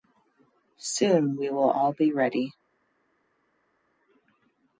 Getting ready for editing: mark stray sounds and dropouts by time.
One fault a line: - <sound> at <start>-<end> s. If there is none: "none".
none